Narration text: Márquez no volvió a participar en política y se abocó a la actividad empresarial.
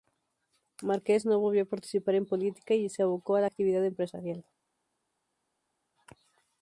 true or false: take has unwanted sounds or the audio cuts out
false